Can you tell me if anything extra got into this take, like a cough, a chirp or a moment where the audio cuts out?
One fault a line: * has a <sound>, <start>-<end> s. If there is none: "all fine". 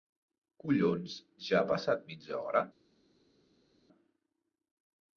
all fine